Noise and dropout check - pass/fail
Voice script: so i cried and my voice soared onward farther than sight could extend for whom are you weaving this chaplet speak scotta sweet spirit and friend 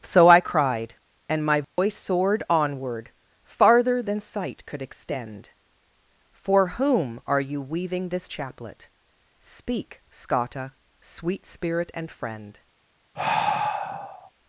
fail